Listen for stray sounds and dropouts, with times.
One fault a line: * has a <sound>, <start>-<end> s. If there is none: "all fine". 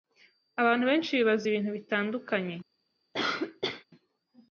* has a cough, 3.1-3.8 s